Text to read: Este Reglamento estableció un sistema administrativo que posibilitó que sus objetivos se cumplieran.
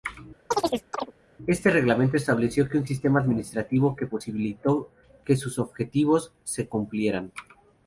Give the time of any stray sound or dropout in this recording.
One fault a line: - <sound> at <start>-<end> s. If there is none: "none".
- chirp at 0.5-1.1 s